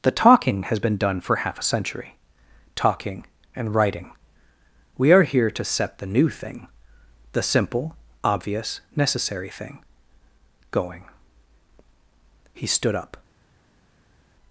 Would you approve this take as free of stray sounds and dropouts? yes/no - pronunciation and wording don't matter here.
yes